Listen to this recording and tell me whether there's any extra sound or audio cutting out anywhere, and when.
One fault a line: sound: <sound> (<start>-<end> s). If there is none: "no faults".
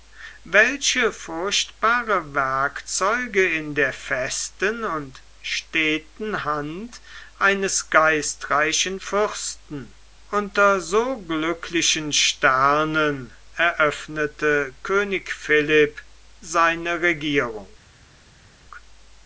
no faults